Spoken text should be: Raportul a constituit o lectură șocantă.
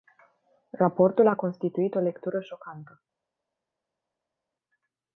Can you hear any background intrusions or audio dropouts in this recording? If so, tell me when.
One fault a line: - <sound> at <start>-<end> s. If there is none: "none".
none